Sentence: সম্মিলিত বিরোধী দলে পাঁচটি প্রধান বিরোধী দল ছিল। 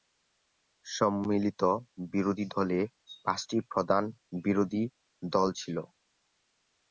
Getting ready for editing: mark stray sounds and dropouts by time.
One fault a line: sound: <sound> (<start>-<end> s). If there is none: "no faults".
no faults